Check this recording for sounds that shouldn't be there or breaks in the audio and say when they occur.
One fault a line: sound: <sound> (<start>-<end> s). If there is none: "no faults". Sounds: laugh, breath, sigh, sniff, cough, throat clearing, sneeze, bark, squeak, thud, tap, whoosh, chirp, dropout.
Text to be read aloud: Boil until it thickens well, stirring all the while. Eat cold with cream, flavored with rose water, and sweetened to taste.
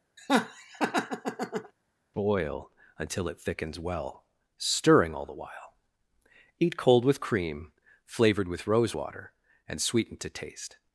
sound: laugh (0.2-1.7 s)